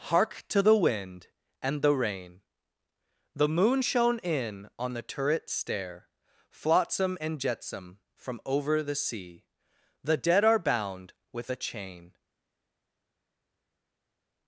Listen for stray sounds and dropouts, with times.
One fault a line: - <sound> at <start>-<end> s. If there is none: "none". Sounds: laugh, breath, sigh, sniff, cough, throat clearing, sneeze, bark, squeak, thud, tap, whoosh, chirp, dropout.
none